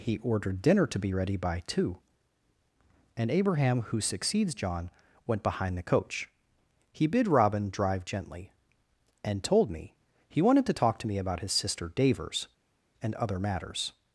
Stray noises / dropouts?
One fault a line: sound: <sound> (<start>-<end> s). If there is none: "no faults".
no faults